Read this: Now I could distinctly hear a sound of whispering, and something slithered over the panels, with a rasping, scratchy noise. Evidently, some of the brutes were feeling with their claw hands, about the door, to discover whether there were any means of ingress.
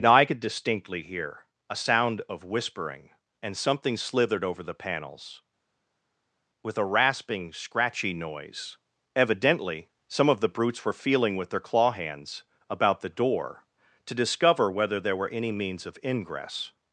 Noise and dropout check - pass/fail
pass